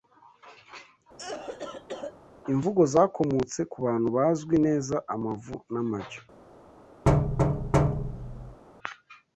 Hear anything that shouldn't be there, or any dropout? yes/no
yes